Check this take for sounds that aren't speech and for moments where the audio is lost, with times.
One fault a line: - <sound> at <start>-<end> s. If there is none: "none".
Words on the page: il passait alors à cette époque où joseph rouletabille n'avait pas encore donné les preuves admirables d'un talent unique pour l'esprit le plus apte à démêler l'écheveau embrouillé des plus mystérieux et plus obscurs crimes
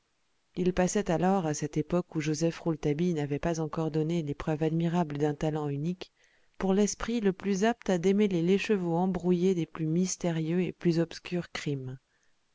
none